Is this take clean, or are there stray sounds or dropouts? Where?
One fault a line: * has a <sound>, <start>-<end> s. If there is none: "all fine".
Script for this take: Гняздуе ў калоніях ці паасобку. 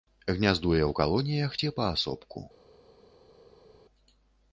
all fine